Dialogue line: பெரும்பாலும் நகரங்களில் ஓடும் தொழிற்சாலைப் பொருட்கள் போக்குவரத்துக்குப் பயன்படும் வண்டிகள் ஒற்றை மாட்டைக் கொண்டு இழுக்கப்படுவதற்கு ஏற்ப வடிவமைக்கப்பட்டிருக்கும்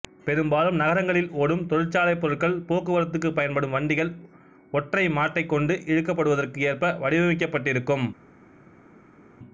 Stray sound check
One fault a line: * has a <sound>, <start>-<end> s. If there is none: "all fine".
all fine